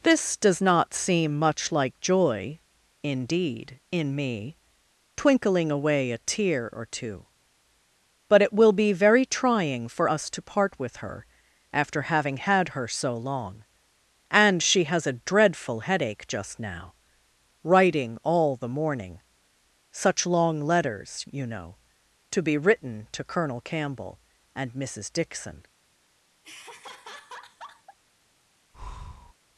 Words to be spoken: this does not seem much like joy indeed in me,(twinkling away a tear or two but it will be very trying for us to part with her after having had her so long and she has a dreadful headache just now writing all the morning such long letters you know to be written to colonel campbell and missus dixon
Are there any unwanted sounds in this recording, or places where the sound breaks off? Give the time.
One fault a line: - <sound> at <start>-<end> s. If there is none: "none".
- laugh at 26.4-28.0 s
- breath at 28.7-29.3 s